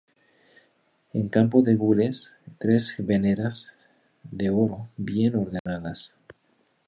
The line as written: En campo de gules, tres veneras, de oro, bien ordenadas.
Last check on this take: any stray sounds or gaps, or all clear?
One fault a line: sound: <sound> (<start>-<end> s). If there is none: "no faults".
sound: dropout (5.6-5.7 s)